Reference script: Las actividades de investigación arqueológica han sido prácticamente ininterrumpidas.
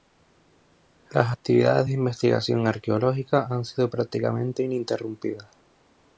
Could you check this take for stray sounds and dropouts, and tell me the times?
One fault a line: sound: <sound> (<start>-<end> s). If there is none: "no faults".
no faults